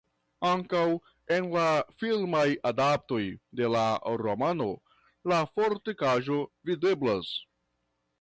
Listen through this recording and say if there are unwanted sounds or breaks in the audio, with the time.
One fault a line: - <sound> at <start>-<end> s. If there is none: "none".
none